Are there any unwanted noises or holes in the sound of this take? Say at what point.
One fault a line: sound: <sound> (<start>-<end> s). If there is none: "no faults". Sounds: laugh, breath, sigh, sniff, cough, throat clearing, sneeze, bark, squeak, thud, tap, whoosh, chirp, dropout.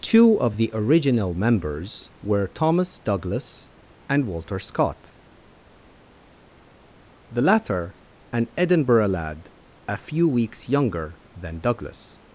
no faults